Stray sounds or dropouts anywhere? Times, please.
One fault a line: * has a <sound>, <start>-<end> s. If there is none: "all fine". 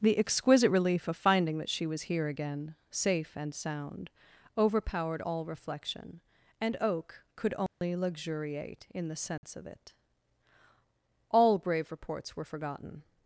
* has a dropout, 7.7-7.8 s
* has a dropout, 9.4-9.4 s